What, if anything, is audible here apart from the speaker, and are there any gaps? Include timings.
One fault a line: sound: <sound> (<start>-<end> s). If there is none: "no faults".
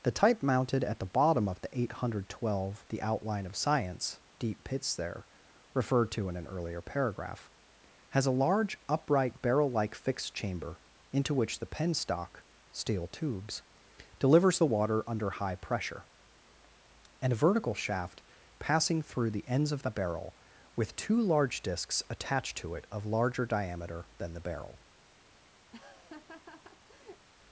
sound: laugh (25.7-27.3 s)